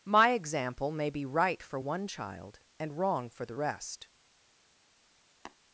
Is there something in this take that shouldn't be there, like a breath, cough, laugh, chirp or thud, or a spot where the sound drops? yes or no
yes